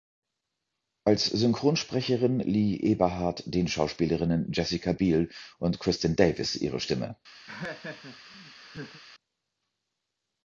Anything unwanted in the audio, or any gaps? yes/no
yes